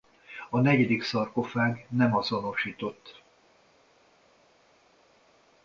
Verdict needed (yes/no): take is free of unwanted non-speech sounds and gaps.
yes